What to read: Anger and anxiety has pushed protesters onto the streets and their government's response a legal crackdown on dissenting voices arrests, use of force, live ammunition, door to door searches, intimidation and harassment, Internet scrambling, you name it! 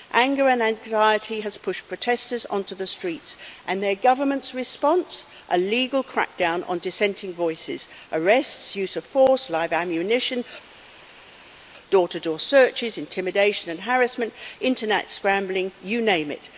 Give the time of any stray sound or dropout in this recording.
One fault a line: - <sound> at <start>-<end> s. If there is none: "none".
none